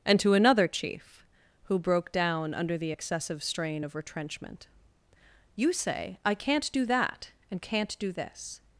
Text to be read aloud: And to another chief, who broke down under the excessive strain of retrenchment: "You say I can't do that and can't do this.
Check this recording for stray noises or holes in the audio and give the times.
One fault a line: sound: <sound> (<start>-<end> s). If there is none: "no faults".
no faults